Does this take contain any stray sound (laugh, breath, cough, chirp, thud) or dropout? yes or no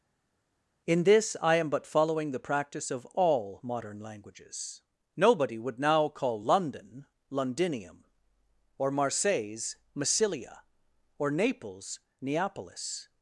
no